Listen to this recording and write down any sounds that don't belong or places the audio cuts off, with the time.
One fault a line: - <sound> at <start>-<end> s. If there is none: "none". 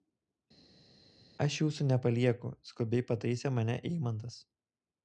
none